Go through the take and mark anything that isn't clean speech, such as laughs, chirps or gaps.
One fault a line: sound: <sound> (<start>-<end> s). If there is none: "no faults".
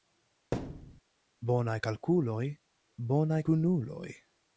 sound: thud (0.5-1.0 s)